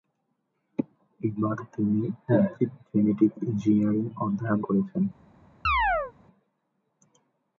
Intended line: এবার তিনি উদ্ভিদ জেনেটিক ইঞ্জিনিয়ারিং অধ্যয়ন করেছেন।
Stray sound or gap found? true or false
true